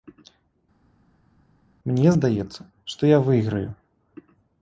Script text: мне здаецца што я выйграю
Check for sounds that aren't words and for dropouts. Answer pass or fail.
pass